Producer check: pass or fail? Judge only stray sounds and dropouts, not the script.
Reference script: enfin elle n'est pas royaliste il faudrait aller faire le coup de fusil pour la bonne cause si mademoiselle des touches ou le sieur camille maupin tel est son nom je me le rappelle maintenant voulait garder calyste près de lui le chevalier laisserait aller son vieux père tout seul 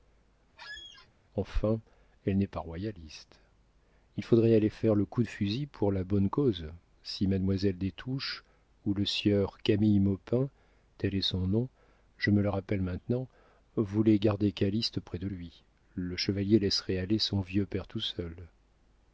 fail